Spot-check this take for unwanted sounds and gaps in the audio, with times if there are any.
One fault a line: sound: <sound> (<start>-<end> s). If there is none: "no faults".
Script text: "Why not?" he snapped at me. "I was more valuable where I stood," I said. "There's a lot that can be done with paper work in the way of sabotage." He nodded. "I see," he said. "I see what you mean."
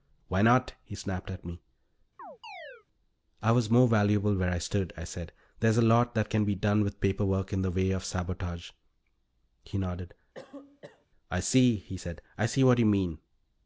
sound: chirp (2.2-2.9 s)
sound: cough (10.3-11.1 s)